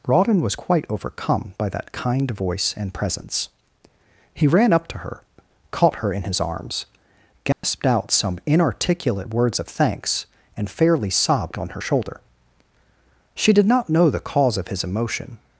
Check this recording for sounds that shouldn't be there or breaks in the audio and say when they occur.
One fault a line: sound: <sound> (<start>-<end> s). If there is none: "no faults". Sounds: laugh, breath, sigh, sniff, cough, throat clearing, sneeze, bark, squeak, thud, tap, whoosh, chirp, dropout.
sound: dropout (7.5-7.6 s)